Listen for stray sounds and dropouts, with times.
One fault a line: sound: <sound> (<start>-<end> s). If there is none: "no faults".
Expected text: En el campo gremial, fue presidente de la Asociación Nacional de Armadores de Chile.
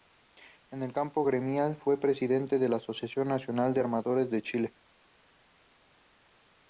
no faults